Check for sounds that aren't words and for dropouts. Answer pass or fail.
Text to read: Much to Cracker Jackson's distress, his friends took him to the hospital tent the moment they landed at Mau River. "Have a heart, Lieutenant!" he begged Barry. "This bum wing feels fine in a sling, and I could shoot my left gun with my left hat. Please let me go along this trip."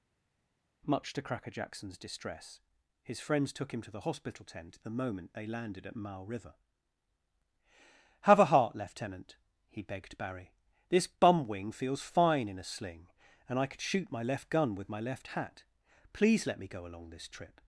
pass